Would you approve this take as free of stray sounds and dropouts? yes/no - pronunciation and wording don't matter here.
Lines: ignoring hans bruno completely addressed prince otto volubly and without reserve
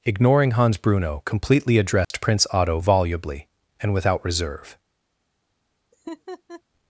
no